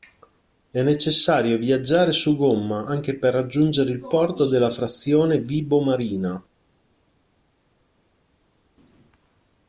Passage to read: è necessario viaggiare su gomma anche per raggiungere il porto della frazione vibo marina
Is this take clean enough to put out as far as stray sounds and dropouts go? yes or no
yes